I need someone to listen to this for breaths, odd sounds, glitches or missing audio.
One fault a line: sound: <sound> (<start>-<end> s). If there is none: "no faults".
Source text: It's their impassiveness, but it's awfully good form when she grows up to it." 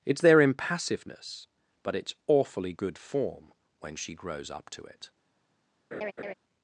sound: laugh (5.9-6.3 s)